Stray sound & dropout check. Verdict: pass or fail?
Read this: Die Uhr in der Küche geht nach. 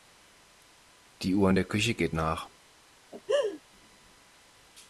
fail